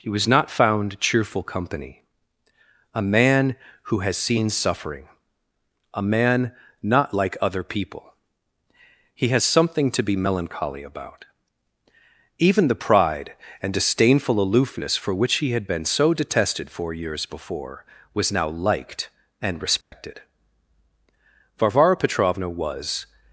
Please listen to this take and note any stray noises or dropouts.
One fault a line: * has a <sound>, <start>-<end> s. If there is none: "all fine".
* has a dropout, 19.8-19.9 s